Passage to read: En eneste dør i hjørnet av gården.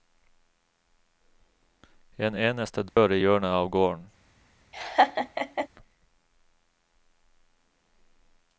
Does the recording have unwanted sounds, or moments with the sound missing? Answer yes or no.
yes